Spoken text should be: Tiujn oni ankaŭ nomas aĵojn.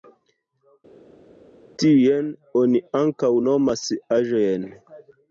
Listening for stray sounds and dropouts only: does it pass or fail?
pass